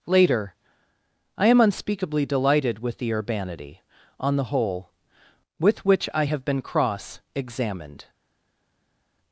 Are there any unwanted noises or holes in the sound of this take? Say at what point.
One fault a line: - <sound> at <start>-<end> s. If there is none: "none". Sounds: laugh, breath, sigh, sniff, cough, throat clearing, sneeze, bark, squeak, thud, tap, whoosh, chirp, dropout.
none